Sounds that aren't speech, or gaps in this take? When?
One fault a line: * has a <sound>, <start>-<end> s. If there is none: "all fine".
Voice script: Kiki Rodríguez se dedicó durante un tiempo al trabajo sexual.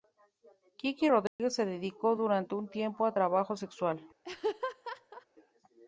* has a dropout, 1.3-1.4 s
* has a laugh, 4.2-5.3 s